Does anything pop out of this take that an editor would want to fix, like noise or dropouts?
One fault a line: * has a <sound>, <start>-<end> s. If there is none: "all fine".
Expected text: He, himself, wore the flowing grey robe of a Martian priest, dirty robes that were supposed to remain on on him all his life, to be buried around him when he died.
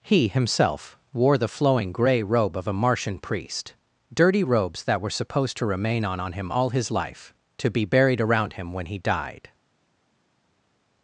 all fine